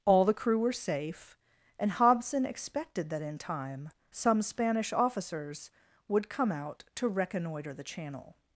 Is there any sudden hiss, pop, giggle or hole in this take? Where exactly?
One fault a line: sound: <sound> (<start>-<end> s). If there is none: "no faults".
no faults